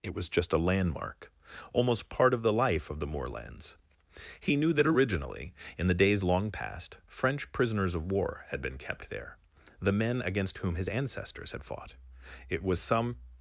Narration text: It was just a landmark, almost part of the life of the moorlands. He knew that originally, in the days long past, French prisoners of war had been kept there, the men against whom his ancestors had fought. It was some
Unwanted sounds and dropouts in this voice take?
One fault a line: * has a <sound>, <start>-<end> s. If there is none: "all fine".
all fine